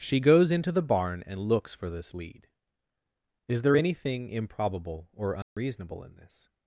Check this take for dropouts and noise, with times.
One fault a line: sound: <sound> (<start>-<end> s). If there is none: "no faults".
sound: dropout (5.4-5.6 s)